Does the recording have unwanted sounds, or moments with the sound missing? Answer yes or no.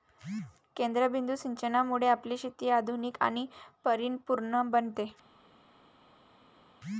no